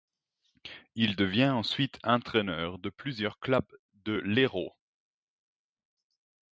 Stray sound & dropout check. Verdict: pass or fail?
pass